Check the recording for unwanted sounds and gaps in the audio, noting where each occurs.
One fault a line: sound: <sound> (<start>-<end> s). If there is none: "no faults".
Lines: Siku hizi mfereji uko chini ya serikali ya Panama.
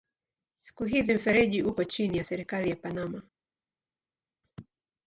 no faults